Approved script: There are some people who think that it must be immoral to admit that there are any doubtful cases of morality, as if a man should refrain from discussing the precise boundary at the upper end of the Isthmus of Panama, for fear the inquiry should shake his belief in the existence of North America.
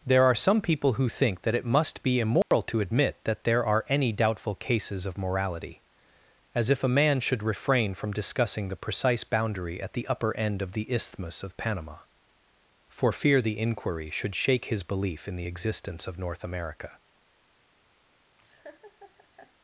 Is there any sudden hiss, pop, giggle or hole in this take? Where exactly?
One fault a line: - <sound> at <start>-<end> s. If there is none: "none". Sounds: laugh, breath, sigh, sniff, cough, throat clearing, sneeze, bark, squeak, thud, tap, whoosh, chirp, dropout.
- dropout at 2.4-2.5 s
- laugh at 18.4-19.5 s